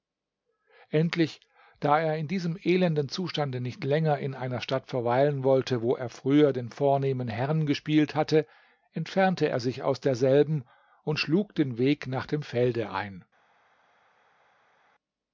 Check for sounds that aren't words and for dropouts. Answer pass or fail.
pass